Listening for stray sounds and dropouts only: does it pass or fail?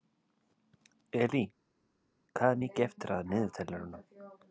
pass